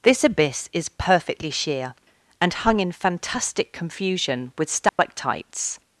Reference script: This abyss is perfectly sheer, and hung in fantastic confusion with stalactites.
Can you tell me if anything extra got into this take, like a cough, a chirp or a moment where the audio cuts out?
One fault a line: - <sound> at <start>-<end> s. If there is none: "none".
- dropout at 4.9-5.0 s